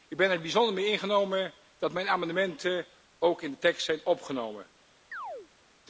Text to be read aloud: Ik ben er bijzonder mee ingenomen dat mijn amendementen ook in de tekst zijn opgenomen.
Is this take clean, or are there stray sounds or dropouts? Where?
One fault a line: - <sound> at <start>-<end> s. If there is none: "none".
- chirp at 5.1-5.5 s